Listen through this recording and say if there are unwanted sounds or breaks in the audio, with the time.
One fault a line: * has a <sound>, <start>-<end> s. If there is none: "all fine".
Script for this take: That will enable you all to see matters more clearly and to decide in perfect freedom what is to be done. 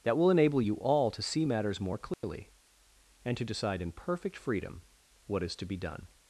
* has a dropout, 2.1-2.2 s